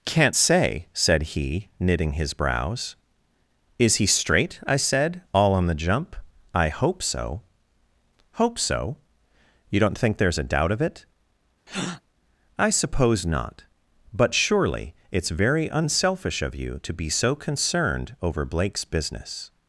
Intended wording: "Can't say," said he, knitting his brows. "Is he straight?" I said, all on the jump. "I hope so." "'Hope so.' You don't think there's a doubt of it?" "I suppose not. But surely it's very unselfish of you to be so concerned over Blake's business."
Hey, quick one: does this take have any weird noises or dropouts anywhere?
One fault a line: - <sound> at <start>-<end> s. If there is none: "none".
- breath at 11.7-12.0 s